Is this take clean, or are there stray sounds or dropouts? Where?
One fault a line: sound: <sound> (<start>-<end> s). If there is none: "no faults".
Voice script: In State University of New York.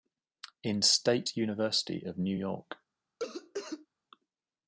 sound: cough (3.2-3.9 s)